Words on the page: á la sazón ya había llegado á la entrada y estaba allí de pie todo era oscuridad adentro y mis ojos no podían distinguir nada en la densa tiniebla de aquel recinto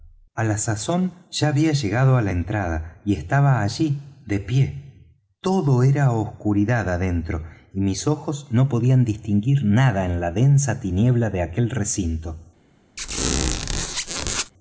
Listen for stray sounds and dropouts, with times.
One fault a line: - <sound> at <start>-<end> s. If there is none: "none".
- squeak at 13.0-14.5 s